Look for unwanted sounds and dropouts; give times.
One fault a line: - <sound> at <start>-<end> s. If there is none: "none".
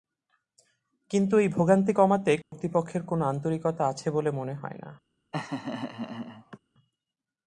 - dropout at 2.4-2.5 s
- laugh at 5.3-6.6 s